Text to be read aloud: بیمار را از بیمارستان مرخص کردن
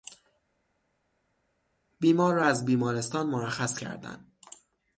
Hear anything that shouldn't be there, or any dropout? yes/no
no